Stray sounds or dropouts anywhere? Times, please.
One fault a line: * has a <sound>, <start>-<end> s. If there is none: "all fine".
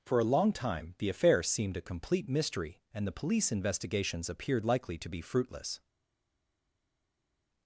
all fine